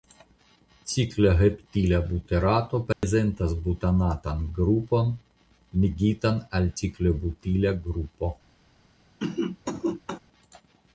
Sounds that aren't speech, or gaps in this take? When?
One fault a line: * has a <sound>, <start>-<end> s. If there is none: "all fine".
* has a dropout, 2.9-3.0 s
* has a cough, 9.2-10.2 s